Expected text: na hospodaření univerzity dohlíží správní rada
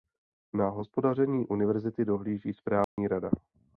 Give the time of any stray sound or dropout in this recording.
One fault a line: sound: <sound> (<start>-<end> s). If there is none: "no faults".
sound: dropout (2.8-3.0 s)